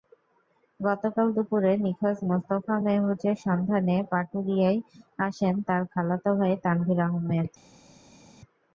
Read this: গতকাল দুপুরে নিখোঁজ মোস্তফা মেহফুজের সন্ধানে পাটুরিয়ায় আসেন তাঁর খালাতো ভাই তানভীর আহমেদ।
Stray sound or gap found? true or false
false